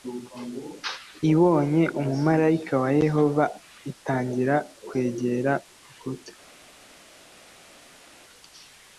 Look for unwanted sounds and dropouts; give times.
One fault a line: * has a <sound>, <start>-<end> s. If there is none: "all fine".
all fine